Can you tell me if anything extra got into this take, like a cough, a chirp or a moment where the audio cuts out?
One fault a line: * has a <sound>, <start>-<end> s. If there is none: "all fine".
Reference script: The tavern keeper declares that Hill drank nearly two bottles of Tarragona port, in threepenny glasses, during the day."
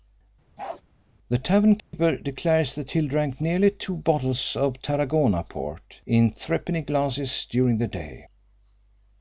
* has a bark, 0.6-0.8 s
* has a dropout, 1.8-1.9 s